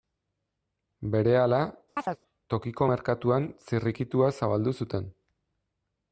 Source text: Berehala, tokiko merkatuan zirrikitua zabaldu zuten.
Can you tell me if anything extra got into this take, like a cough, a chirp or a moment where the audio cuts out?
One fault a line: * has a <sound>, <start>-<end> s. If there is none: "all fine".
* has a chirp, 2.0-2.2 s